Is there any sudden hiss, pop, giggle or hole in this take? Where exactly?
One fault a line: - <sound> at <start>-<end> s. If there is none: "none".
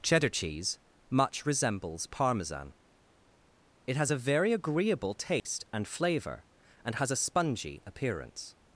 - dropout at 5.4-5.4 s